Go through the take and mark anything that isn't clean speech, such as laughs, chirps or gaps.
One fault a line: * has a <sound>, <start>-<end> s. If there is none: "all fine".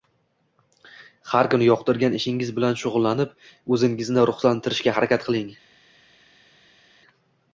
all fine